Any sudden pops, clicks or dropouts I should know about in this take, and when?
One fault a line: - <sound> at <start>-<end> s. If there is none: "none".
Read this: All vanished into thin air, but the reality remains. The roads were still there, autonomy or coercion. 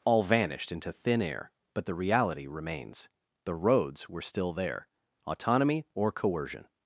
none